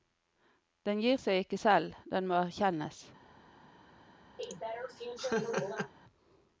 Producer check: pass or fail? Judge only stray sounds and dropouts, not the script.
fail